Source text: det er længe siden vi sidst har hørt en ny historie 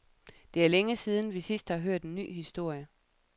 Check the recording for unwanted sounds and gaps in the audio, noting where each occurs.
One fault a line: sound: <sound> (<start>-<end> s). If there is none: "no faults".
no faults